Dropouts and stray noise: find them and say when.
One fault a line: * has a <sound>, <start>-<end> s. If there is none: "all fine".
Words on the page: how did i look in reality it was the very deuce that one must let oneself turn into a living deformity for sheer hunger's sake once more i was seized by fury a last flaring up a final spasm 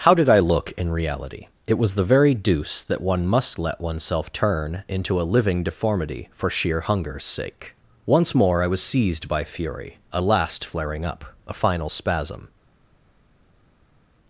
all fine